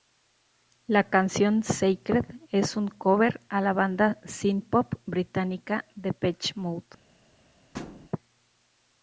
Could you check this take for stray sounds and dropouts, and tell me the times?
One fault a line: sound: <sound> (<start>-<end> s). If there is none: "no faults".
sound: thud (7.7-8.1 s)